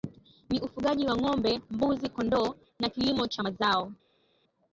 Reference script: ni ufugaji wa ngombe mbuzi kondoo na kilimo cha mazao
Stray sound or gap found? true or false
false